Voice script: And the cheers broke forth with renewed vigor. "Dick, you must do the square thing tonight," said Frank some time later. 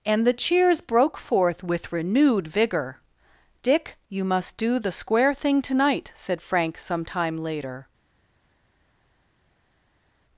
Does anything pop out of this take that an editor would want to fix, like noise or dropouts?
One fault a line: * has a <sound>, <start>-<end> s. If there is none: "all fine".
all fine